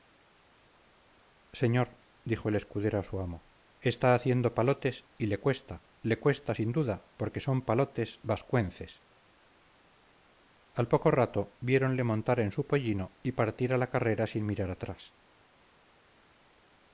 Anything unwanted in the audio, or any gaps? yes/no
no